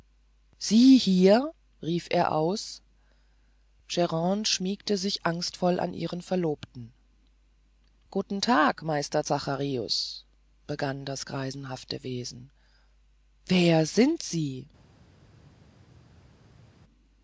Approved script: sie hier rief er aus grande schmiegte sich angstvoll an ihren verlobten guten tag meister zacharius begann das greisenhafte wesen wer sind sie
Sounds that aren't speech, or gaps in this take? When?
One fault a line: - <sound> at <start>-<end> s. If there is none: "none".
none